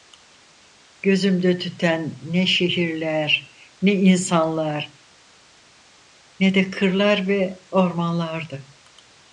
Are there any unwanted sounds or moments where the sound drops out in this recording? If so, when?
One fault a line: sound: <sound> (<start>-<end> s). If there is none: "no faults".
no faults